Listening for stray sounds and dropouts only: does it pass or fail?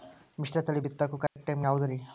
fail